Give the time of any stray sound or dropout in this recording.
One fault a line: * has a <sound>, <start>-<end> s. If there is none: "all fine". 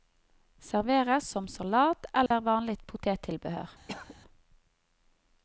* has a dropout, 2.3-2.3 s
* has a cough, 3.9-4.2 s